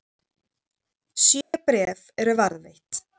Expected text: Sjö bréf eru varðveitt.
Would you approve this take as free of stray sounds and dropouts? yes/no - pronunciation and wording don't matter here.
no